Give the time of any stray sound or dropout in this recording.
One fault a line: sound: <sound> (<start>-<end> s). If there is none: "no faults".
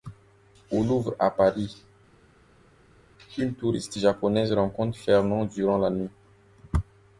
no faults